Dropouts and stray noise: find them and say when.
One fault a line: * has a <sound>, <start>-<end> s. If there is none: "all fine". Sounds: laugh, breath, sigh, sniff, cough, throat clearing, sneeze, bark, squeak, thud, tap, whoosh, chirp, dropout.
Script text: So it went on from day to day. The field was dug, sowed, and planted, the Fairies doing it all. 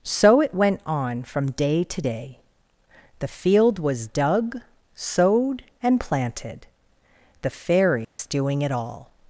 * has a dropout, 8.0-8.2 s